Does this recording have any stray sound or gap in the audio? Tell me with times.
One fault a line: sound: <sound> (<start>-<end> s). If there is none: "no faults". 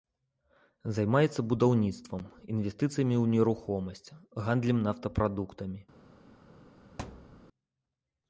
sound: thud (7.0-7.4 s)